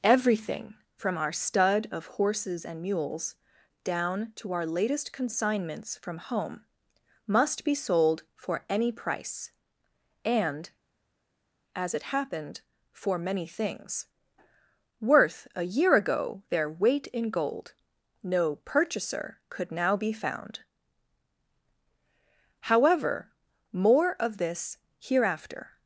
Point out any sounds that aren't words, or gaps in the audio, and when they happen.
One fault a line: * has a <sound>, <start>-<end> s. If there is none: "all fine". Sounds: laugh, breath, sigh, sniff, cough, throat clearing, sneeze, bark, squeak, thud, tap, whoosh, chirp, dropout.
all fine